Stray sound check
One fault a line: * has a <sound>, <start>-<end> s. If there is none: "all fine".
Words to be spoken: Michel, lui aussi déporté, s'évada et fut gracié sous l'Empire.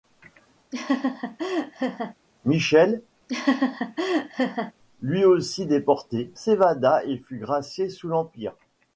* has a laugh, 0.7-2.1 s
* has a laugh, 3.3-4.7 s